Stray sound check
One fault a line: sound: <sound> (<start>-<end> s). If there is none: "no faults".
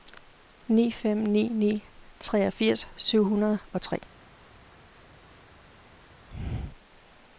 no faults